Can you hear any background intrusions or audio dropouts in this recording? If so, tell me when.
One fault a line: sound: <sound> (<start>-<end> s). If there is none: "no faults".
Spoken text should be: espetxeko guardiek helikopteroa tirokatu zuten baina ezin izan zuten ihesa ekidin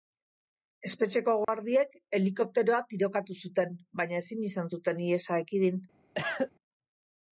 sound: dropout (1.4-1.5 s)
sound: cough (6.2-6.5 s)